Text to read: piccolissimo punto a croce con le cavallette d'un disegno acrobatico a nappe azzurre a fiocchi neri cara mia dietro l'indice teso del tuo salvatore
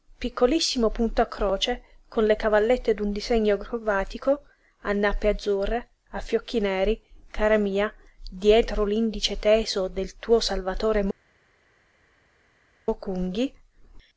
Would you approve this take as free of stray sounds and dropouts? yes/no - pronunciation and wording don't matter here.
yes